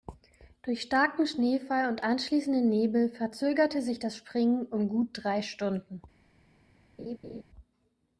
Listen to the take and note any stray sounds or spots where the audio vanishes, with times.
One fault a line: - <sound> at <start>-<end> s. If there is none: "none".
- laugh at 7.0-7.4 s